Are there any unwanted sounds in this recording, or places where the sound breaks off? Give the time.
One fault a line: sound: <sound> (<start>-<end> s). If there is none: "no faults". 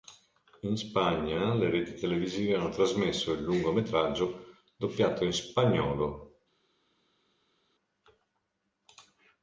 no faults